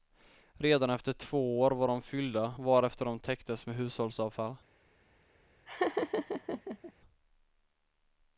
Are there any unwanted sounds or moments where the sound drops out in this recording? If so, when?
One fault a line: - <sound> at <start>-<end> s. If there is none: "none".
- laugh at 5.7-6.9 s